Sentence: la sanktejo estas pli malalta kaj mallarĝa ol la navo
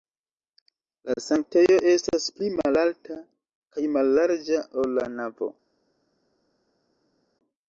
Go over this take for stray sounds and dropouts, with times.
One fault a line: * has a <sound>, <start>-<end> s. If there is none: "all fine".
all fine